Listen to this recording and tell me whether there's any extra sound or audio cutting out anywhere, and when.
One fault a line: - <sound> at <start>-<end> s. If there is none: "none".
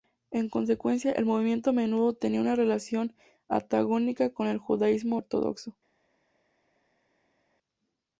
none